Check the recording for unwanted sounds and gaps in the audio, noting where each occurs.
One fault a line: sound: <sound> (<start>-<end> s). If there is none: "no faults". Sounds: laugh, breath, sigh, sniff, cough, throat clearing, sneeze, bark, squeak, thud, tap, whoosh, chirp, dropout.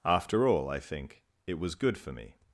no faults